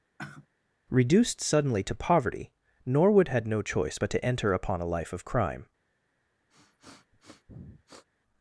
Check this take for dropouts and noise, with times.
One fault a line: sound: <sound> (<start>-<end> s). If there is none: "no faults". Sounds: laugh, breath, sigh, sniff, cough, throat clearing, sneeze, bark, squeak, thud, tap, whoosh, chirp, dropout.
sound: sigh (0.2-0.5 s)
sound: sniff (6.5-8.0 s)